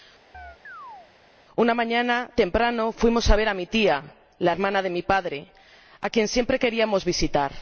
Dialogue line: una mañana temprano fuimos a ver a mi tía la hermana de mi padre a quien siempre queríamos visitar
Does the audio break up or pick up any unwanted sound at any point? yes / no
yes